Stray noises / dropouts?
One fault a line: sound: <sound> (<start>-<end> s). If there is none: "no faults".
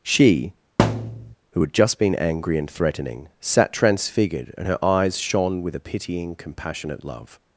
sound: thud (0.8-1.4 s)